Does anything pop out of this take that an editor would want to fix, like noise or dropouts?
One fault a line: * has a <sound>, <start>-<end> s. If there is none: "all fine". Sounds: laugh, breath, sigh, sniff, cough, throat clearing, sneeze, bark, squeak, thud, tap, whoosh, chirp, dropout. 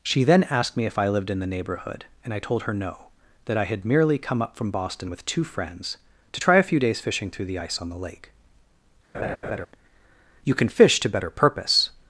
* has a laugh, 9.1-9.7 s